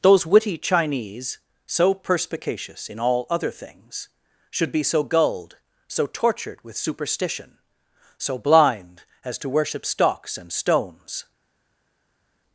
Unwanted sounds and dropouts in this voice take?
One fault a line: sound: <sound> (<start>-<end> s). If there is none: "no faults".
no faults